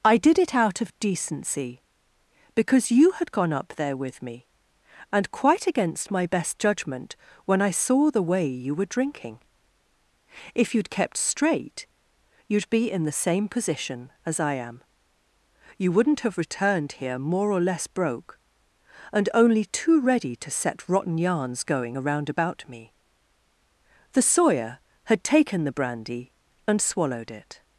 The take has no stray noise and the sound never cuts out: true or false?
true